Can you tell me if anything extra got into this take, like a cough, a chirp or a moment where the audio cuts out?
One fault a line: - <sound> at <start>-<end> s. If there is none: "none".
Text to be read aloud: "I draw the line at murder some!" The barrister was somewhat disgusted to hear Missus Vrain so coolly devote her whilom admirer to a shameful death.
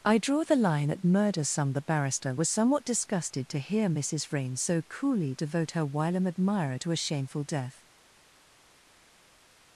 none